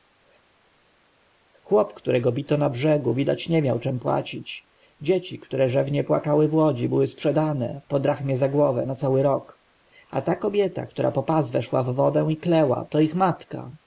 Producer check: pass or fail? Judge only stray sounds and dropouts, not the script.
pass